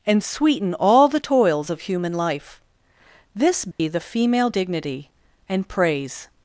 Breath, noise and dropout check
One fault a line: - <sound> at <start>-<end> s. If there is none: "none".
- dropout at 3.7-3.8 s